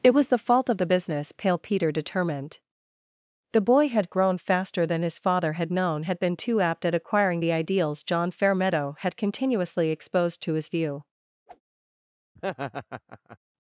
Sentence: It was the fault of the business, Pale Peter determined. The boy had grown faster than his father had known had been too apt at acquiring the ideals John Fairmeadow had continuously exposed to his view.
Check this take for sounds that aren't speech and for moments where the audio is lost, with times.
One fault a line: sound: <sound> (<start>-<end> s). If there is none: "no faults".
sound: whoosh (11.5-11.6 s)
sound: laugh (12.4-13.4 s)